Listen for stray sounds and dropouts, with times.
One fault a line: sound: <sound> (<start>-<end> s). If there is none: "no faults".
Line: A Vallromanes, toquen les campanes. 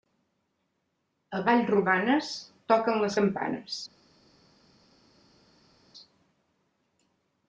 no faults